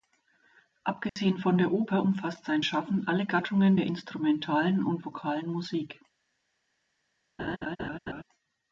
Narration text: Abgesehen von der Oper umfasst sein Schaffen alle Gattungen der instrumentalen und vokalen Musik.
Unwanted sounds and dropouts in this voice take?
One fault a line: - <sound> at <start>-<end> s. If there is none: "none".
- dropout at 1.1-1.2 s
- laugh at 7.4-8.2 s